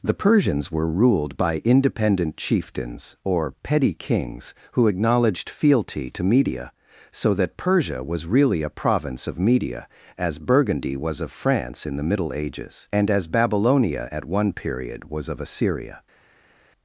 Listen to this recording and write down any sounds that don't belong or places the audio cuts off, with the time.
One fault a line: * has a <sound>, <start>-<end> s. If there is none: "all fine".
all fine